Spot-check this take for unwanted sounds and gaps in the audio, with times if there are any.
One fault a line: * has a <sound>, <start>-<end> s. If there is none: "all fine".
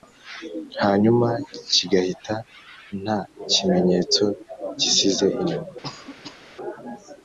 * has a cough, 5.8-6.4 s